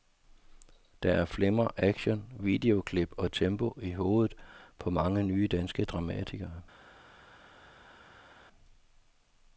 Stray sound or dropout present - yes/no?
no